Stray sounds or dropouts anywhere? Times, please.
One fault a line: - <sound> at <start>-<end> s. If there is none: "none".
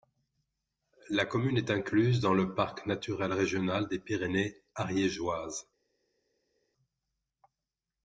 none